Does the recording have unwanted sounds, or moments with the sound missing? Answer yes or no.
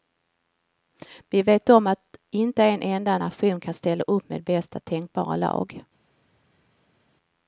no